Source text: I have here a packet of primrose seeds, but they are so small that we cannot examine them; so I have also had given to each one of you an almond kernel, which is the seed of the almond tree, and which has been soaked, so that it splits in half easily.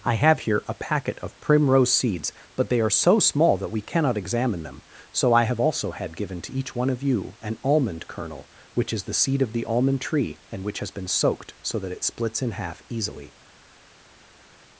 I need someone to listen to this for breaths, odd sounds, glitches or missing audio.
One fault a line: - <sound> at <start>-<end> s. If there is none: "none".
none